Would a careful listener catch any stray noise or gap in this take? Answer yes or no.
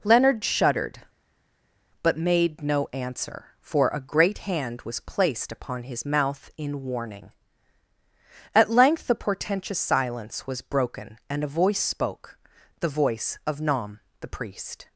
no